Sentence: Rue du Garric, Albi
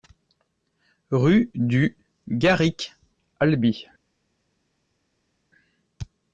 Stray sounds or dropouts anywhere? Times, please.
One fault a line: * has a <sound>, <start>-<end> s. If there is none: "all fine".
all fine